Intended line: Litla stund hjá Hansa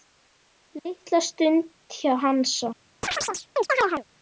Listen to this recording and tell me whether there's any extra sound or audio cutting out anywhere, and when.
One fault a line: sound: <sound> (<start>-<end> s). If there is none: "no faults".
sound: chirp (3.0-4.0 s)